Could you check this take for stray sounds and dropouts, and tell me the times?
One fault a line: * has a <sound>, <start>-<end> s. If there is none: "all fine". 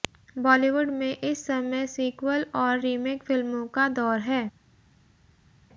all fine